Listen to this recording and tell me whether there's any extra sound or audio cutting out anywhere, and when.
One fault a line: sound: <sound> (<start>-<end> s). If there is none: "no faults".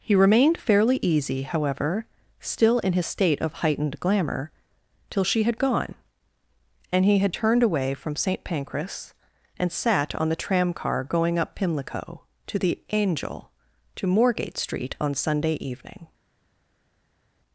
no faults